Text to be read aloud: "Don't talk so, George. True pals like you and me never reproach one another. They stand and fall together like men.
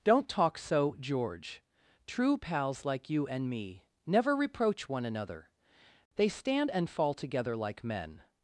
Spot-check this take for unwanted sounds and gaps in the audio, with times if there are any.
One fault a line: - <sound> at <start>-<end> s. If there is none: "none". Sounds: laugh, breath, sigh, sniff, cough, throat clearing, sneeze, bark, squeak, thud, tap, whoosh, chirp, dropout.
none